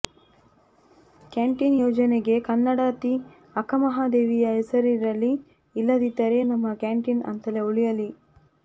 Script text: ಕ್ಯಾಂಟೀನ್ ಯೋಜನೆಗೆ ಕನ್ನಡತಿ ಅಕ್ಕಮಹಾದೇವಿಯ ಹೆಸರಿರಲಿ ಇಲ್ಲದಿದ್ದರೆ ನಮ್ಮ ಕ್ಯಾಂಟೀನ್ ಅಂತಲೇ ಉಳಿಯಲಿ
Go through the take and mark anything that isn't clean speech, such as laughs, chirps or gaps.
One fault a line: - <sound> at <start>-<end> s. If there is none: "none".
none